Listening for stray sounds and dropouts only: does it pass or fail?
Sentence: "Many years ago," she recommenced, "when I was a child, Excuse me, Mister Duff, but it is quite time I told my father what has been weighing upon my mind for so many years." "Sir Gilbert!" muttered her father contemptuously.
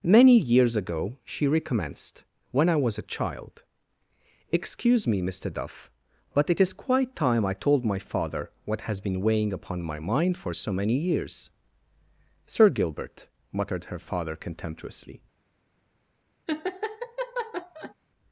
fail